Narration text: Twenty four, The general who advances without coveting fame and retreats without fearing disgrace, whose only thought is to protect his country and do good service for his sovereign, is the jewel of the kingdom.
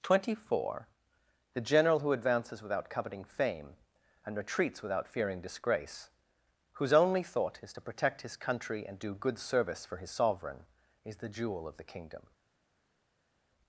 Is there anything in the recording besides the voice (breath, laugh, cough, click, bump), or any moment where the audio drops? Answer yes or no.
no